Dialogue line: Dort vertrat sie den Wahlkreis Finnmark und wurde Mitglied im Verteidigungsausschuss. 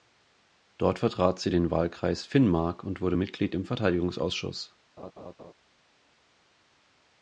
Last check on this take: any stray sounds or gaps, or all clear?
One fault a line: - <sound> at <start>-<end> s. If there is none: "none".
- laugh at 5.0-5.5 s